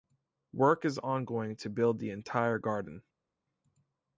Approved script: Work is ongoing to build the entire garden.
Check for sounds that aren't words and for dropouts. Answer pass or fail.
pass